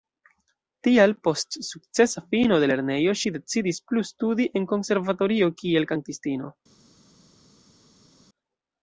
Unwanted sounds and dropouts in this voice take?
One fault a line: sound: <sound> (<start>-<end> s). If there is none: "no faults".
no faults